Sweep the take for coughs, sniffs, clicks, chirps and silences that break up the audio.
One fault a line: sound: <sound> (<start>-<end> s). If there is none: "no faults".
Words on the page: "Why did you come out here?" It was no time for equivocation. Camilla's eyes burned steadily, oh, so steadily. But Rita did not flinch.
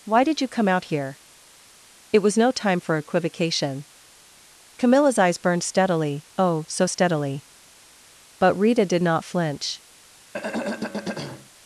sound: throat clearing (10.3-11.5 s)